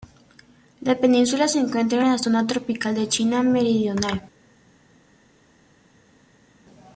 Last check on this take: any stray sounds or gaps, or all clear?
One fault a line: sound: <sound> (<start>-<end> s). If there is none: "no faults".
no faults